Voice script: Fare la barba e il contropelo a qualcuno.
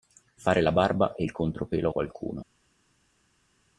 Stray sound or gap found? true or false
false